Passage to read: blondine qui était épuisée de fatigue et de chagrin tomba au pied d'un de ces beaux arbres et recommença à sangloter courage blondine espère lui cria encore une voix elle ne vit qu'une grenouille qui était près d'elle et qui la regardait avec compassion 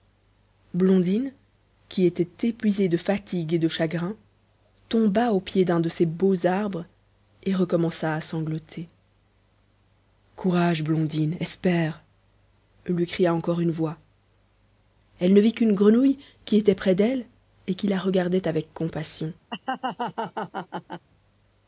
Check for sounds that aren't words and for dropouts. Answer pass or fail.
fail